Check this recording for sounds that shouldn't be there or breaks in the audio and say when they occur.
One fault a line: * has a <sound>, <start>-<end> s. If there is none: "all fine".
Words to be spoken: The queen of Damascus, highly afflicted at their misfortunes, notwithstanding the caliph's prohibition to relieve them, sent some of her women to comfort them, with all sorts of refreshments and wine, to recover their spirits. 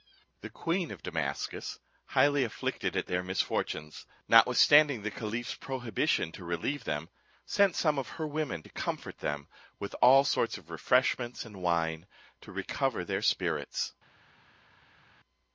all fine